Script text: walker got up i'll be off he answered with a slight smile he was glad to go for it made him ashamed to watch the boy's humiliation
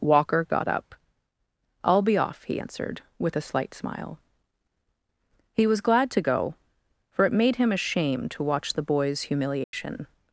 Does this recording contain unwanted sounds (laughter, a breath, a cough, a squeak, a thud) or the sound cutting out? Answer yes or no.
yes